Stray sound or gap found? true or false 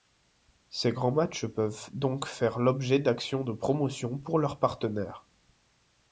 false